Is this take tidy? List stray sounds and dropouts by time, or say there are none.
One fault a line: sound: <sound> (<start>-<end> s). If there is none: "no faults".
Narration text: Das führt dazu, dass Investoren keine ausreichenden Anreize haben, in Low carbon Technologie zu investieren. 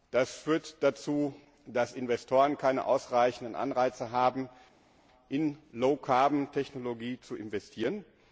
no faults